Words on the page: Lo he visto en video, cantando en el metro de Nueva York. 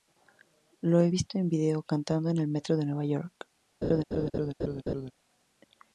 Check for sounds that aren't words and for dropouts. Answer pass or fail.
fail